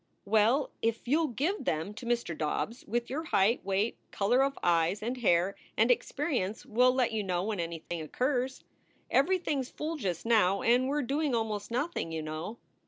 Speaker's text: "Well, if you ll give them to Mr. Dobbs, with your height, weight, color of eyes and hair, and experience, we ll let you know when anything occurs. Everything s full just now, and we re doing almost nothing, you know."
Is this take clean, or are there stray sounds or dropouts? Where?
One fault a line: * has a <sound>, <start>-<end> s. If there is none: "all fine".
* has a dropout, 7.9-7.9 s